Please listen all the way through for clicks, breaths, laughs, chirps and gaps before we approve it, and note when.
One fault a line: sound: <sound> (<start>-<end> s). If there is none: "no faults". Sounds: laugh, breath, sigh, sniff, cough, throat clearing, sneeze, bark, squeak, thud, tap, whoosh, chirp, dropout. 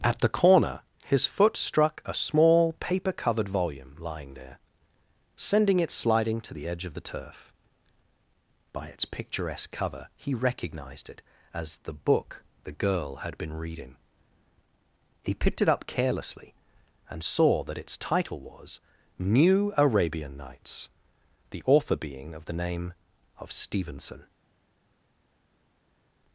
no faults